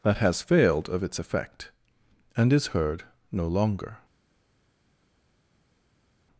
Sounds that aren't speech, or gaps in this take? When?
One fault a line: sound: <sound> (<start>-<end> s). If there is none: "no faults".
no faults